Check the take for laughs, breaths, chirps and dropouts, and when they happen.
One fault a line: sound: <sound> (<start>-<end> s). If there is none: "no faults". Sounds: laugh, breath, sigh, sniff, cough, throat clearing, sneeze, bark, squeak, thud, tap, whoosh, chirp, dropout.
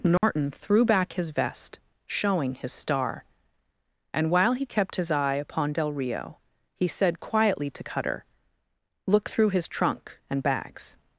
sound: dropout (0.2-0.2 s)